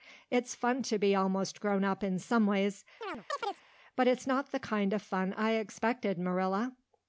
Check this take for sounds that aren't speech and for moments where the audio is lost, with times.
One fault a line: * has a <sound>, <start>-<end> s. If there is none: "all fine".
* has a chirp, 3.0-3.6 s